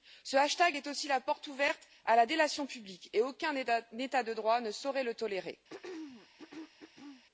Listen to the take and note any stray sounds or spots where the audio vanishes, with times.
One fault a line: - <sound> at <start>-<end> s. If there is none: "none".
- throat clearing at 5.7-7.2 s